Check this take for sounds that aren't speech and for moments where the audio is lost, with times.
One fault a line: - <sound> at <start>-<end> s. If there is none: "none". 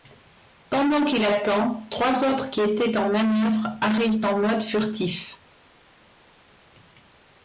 none